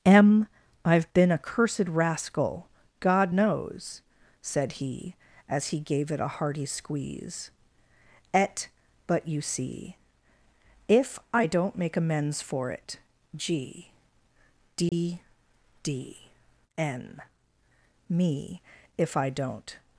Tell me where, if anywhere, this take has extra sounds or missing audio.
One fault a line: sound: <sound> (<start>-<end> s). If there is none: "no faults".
sound: dropout (14.9-14.9 s)